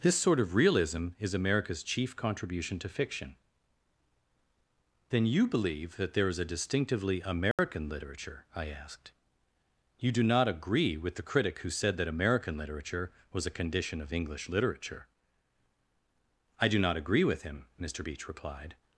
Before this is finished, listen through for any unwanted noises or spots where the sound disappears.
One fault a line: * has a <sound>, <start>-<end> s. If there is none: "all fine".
* has a dropout, 7.5-7.6 s